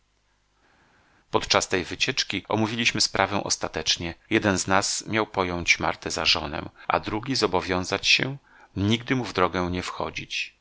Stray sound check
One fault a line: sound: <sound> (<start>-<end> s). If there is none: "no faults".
no faults